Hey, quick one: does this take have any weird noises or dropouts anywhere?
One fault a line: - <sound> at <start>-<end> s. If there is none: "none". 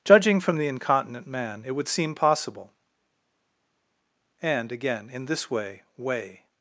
none